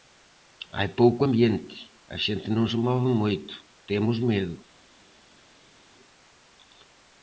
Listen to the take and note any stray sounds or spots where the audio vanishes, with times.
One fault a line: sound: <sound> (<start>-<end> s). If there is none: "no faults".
no faults